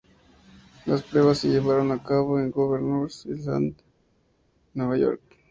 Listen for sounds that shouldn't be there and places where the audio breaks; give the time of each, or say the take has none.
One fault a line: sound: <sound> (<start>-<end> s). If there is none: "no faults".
no faults